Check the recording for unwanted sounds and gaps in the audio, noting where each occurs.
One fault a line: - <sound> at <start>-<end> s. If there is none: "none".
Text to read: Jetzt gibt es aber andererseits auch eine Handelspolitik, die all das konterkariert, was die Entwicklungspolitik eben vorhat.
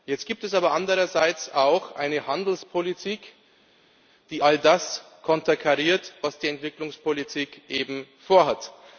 none